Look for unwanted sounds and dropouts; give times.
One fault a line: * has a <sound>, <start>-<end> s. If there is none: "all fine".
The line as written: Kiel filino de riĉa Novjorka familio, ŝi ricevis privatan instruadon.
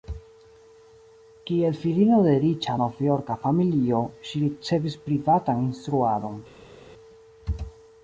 all fine